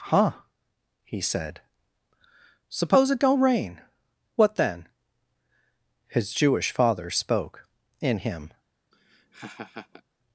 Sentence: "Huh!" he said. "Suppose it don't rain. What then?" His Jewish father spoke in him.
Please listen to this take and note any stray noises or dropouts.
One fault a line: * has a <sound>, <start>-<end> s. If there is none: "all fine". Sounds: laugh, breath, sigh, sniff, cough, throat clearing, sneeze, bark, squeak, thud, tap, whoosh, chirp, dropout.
* has a laugh, 8.9-10.0 s